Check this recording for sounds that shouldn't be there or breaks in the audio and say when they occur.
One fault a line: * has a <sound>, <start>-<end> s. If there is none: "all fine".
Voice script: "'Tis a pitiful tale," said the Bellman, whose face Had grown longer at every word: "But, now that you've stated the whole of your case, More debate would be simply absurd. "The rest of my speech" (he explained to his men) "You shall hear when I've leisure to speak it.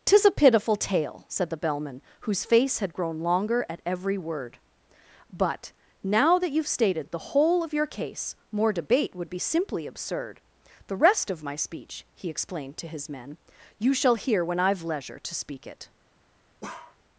* has a bark, 16.6-17.0 s